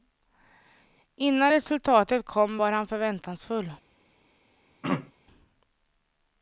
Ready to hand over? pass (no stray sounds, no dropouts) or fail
fail